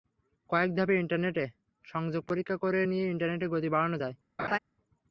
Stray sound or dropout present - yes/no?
yes